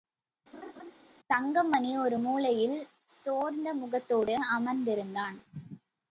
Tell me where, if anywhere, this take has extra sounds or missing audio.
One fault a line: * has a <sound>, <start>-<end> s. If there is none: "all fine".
* has a laugh, 0.5-0.9 s